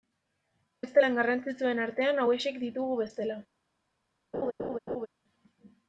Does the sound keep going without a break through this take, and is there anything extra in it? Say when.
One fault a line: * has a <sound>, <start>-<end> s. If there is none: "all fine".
* has a laugh, 4.3-5.1 s